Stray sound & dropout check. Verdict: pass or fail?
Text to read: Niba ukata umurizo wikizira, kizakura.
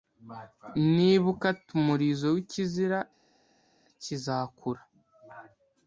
pass